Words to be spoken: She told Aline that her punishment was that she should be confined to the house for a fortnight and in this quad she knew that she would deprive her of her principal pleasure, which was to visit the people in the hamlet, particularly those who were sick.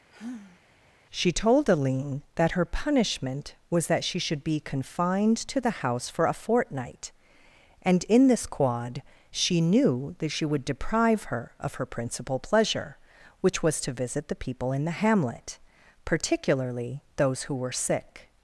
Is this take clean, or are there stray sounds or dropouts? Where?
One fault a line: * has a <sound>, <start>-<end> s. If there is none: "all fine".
* has a sigh, 0.1-0.6 s